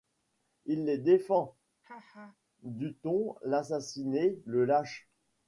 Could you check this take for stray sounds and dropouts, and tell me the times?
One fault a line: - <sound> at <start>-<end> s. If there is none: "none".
- laugh at 1.8-2.4 s